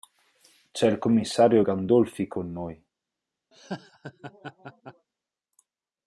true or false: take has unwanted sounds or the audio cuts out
true